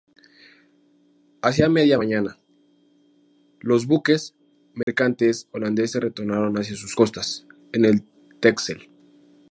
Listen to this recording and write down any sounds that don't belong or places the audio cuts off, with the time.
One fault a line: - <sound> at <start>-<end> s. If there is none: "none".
- dropout at 4.8-4.9 s